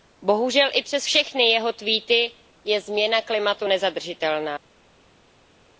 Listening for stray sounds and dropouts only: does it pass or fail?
pass